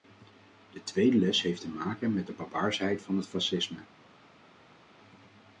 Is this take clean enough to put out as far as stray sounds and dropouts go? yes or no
yes